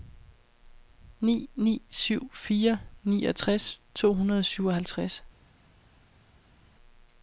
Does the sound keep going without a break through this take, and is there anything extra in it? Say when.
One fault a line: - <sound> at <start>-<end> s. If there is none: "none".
none